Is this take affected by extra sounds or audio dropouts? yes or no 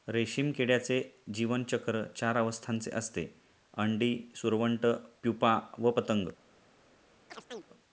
yes